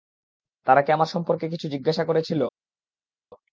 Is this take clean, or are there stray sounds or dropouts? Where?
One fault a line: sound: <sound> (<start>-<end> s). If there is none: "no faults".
no faults